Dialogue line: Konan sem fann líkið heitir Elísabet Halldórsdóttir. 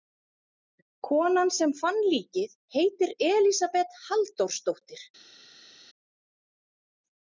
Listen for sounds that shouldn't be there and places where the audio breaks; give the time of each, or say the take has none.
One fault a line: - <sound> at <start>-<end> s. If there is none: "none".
none